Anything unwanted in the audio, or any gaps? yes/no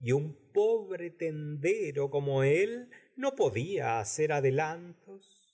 no